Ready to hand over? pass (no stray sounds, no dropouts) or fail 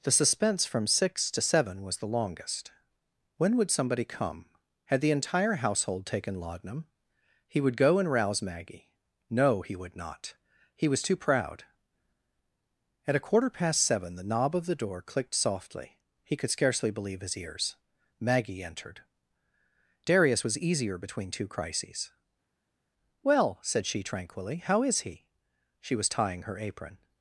pass